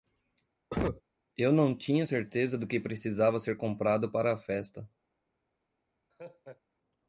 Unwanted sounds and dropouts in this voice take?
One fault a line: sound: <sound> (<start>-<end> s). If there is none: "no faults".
sound: cough (0.7-1.0 s)
sound: laugh (6.1-6.6 s)